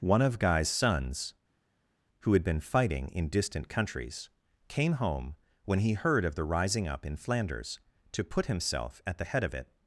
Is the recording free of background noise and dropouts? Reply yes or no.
yes